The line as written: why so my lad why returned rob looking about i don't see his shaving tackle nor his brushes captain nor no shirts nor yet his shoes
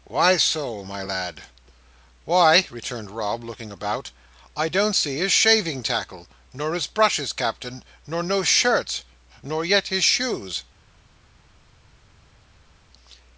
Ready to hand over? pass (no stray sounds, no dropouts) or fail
pass